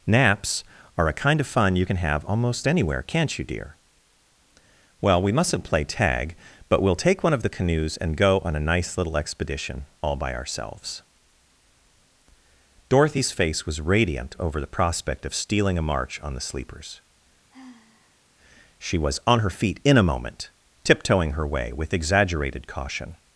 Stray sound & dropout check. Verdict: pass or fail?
fail